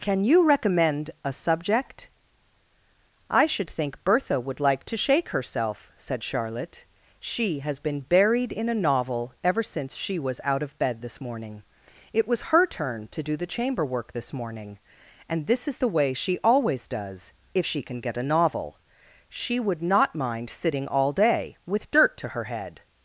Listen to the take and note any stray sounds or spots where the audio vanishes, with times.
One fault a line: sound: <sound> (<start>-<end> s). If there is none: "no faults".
no faults